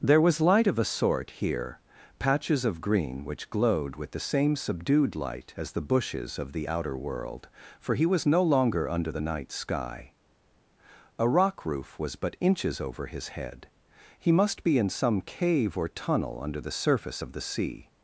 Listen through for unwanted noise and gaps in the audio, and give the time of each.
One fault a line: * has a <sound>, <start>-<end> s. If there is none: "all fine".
all fine